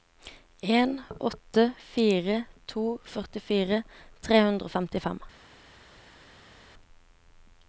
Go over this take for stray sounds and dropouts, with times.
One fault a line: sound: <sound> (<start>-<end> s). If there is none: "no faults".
no faults